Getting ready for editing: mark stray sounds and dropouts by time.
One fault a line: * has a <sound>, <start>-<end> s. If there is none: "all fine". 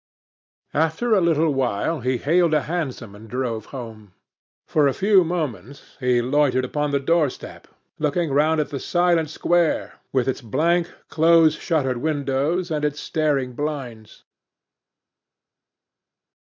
all fine